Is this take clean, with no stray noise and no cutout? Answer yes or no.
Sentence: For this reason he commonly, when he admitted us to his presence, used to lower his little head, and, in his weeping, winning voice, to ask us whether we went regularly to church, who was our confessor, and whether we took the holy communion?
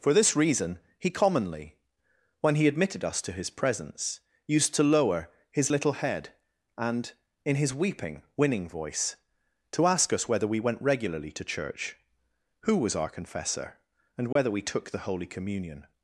no